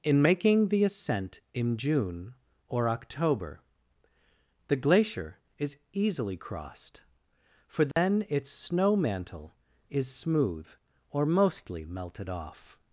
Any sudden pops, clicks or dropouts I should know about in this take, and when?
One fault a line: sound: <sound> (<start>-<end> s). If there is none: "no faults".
sound: dropout (7.9-8.0 s)